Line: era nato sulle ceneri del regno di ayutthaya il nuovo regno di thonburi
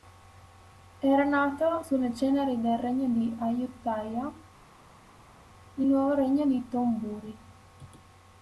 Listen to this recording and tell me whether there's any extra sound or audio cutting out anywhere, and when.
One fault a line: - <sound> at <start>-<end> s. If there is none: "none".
none